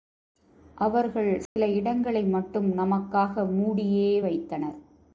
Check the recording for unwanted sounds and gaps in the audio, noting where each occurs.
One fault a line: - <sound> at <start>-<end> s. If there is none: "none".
- dropout at 1.5-1.6 s